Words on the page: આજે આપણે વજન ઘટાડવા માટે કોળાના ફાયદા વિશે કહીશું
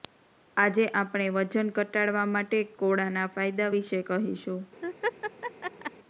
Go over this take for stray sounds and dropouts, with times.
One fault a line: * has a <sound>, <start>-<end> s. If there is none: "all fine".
* has a laugh, 4.8-5.9 s